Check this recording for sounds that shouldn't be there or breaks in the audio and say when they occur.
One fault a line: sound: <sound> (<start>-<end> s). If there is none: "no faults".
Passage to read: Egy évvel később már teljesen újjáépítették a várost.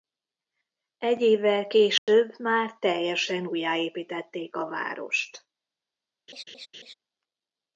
sound: dropout (2.0-2.1 s)
sound: laugh (6.3-6.9 s)